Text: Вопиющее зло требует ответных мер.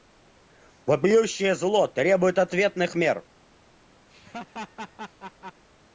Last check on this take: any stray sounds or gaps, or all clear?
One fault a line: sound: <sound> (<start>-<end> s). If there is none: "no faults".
sound: laugh (4.1-5.7 s)